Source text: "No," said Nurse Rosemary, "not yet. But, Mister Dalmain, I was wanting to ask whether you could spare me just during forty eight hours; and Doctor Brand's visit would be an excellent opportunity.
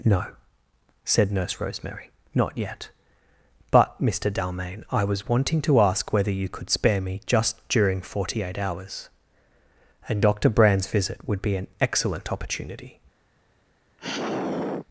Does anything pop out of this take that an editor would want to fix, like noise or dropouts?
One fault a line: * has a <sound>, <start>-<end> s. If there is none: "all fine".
* has a sigh, 14.0-14.9 s